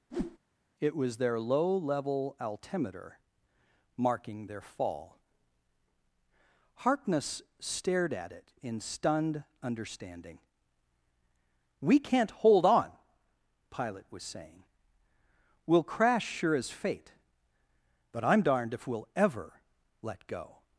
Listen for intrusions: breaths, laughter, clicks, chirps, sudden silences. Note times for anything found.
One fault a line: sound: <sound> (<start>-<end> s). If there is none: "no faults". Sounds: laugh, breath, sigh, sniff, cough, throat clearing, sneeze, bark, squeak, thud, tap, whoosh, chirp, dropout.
sound: whoosh (0.1-0.4 s)